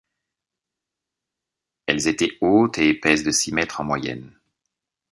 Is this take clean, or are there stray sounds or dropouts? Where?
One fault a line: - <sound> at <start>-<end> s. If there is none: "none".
none